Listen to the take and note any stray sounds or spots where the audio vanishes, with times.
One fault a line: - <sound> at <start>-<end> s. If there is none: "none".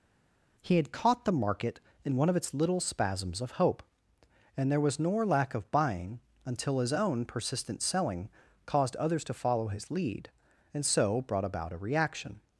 none